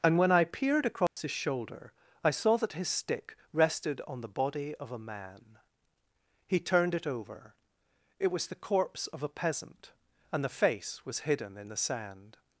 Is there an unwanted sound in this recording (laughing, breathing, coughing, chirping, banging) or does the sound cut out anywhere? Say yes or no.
yes